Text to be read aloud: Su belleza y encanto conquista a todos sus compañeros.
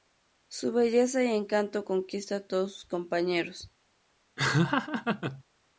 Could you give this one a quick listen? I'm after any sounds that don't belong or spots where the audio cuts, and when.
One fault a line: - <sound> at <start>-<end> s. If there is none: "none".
- laugh at 4.4-5.4 s